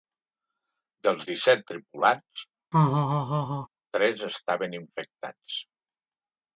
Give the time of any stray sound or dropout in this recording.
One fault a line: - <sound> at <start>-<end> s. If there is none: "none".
- laugh at 2.7-3.7 s